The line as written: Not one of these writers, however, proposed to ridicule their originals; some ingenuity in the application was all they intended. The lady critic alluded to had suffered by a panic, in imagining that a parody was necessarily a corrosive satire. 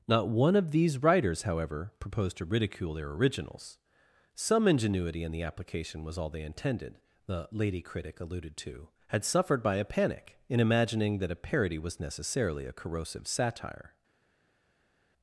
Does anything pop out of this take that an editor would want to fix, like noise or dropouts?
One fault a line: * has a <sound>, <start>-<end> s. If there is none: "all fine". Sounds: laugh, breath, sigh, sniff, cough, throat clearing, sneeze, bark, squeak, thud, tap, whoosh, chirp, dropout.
all fine